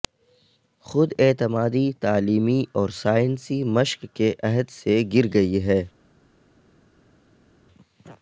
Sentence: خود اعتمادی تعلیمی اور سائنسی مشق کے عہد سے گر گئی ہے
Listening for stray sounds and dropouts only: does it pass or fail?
pass